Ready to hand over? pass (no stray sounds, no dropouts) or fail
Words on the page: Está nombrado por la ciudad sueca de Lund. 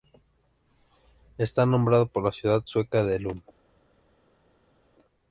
pass